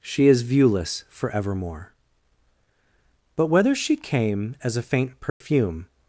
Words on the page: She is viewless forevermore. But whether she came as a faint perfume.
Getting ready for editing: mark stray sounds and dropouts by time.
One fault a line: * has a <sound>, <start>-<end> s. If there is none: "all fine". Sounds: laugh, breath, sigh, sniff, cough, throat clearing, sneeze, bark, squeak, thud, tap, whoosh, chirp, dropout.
* has a dropout, 5.3-5.4 s